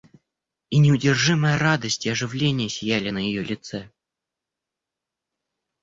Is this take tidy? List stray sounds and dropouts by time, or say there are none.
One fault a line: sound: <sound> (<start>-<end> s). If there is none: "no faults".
no faults